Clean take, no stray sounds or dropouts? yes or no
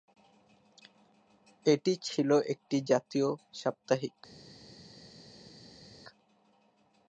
yes